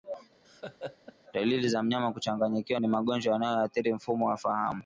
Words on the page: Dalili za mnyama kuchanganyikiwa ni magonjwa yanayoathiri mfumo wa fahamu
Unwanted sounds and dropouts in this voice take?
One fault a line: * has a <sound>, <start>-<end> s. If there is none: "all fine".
* has a laugh, 0.4-1.1 s